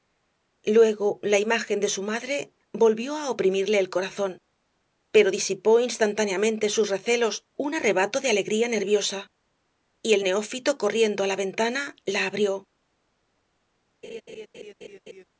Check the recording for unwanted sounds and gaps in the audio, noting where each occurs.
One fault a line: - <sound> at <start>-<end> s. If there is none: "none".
- laugh at 14.0-15.2 s